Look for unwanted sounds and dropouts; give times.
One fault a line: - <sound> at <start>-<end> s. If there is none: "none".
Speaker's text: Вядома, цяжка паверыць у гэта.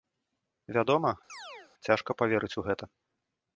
- chirp at 1.3-1.7 s